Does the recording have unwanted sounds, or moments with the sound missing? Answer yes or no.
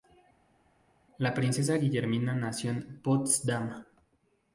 no